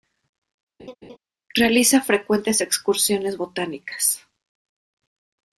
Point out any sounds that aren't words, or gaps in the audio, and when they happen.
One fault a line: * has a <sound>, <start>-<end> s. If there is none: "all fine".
* has a laugh, 0.8-1.2 s